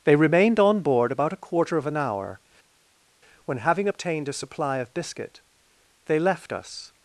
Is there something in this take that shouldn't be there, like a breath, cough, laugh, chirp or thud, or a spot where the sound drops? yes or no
no